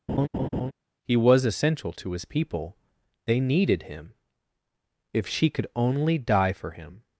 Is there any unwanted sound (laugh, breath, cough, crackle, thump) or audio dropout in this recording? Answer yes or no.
yes